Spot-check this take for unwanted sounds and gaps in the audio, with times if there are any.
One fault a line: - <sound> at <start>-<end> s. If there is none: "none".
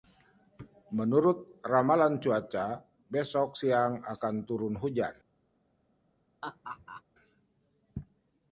- laugh at 6.4-7.0 s